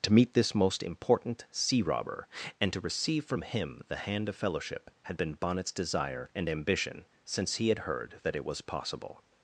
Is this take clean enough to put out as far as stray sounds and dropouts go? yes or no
yes